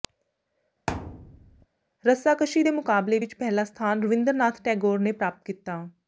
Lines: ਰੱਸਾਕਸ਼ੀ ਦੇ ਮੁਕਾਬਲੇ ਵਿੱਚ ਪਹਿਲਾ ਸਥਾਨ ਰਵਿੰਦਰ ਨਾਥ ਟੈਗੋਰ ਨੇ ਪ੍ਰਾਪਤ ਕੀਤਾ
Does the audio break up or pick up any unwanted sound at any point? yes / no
yes